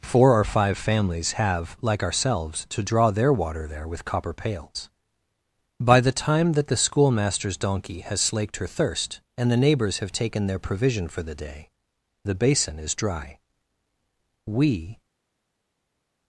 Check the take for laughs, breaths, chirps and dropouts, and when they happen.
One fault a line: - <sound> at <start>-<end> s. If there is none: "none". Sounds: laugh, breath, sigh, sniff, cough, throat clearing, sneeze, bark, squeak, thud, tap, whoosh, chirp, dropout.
none